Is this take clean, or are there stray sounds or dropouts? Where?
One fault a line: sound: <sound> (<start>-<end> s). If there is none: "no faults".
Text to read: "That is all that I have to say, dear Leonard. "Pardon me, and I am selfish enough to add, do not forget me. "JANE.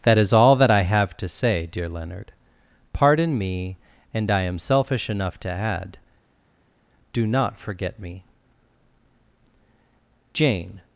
no faults